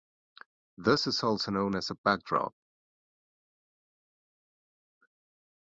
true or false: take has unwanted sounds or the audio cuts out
false